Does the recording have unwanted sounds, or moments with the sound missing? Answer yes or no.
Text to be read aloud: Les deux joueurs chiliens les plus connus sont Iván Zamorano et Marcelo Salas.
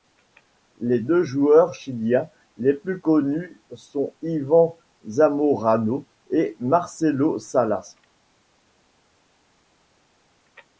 no